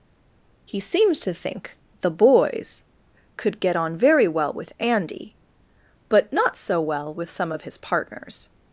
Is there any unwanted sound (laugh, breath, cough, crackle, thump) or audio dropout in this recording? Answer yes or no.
no